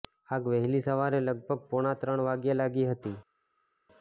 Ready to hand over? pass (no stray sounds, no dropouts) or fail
pass